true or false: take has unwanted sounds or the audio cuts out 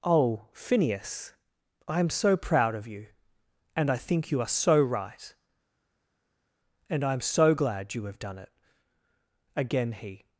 false